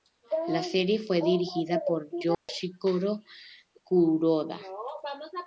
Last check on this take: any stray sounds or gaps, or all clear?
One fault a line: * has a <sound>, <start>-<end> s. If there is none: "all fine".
* has a dropout, 2.3-2.5 s